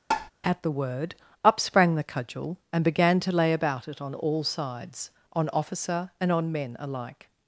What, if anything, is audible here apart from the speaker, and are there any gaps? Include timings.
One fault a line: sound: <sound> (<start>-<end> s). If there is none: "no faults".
sound: tap (0.1-0.3 s)